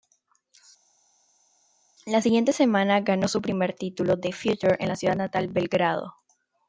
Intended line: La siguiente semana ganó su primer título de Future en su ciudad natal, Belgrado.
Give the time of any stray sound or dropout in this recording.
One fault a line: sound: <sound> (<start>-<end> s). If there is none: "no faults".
no faults